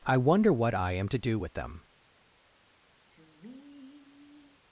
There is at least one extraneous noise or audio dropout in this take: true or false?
true